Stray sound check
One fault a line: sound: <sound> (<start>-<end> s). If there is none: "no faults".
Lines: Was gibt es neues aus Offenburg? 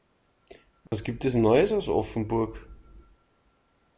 sound: dropout (0.9-0.9 s)